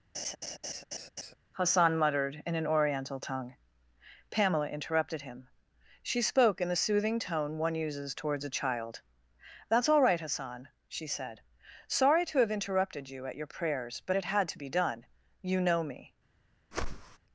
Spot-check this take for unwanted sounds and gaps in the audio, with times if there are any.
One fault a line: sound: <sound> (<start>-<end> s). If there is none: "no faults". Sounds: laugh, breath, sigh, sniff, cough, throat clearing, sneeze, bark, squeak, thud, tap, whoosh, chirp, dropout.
sound: laugh (0.1-1.3 s)
sound: whoosh (16.7-17.2 s)